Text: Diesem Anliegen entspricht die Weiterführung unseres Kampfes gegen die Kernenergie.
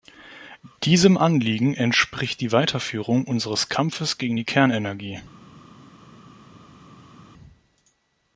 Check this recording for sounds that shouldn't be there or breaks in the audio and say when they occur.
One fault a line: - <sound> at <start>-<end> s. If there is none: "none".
none